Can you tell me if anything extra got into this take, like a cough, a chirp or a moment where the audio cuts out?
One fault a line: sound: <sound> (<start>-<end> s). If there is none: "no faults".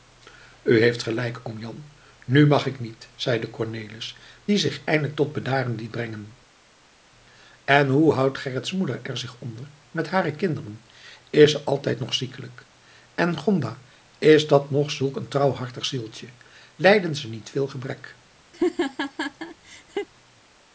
sound: laugh (18.5-20.1 s)